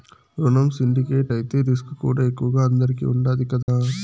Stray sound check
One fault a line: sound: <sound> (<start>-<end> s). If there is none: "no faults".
sound: dropout (3.6-3.7 s)